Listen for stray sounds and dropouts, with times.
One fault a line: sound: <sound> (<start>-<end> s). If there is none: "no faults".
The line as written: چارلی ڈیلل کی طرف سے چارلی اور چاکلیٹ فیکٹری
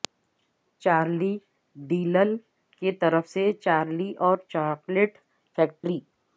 sound: dropout (5.8-5.8 s)